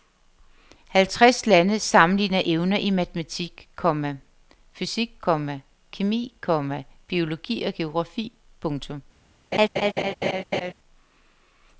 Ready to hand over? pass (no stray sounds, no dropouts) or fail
fail